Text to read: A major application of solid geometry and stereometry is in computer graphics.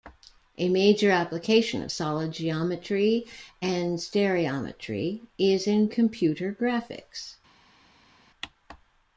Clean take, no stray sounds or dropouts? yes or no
yes